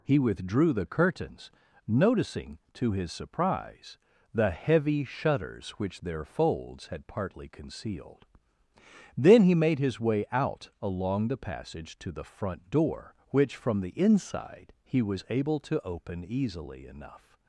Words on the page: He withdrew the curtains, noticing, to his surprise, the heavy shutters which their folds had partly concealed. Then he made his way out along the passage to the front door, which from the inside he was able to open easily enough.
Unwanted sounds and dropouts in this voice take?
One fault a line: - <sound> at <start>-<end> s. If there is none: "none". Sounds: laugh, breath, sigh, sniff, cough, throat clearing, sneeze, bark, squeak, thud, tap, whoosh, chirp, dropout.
none